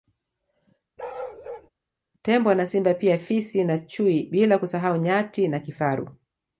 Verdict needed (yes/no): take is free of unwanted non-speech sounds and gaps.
no